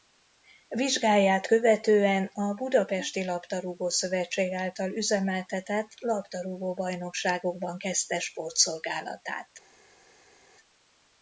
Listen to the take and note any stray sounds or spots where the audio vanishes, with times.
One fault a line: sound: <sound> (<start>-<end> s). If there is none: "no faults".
no faults